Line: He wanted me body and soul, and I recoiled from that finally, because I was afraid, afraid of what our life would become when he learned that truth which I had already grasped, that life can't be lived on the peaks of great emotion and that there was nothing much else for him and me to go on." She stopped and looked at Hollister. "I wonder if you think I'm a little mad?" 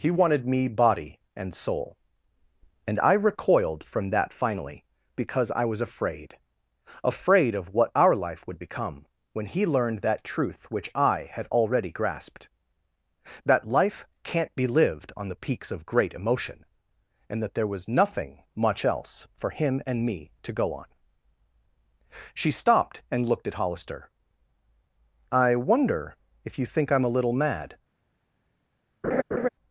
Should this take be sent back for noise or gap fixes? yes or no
yes